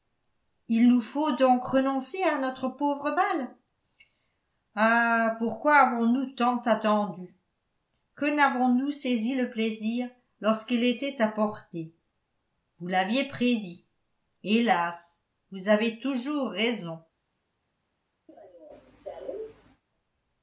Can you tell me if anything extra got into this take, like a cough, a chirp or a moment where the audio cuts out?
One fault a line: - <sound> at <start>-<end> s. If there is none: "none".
- cough at 18.3-19.8 s